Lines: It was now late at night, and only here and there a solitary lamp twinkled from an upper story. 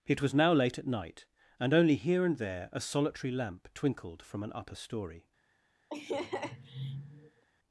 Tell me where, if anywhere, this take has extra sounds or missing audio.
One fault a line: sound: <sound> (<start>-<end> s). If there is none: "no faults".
sound: laugh (5.9-7.4 s)